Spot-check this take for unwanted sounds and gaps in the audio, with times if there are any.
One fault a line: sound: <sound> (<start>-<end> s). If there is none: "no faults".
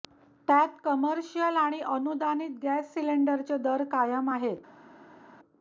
no faults